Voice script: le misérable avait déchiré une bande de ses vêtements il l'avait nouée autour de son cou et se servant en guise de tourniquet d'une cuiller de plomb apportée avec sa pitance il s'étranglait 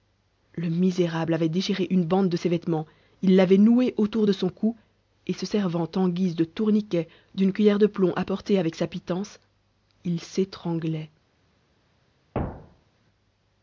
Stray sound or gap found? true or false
true